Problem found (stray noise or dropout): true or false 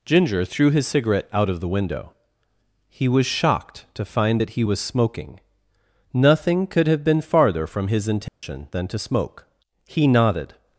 true